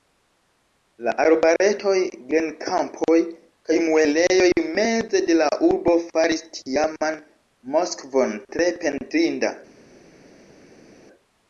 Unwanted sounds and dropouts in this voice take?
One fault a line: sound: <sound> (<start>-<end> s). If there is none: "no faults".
no faults